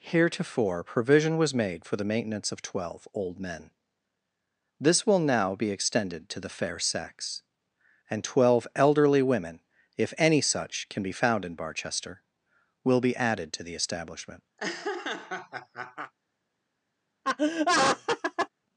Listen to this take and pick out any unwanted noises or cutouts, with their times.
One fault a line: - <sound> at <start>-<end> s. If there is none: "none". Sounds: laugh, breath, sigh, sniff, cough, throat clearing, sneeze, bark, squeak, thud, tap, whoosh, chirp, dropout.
- laugh at 14.6-16.1 s
- laugh at 17.2-18.5 s